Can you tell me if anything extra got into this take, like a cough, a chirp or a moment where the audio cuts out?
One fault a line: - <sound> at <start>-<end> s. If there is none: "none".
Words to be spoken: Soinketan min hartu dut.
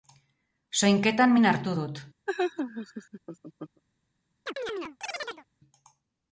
- laugh at 2.3-3.8 s
- chirp at 4.5-5.5 s